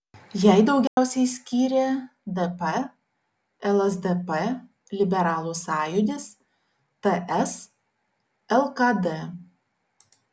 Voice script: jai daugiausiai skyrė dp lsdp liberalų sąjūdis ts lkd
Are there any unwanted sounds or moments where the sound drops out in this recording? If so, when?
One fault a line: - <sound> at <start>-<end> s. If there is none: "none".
- dropout at 0.9-1.0 s